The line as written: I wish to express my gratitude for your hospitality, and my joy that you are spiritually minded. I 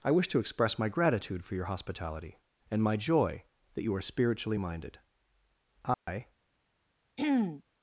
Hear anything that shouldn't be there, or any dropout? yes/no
yes